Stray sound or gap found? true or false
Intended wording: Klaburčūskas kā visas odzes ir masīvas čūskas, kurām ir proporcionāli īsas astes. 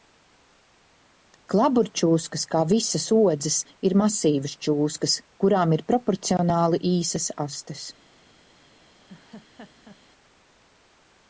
true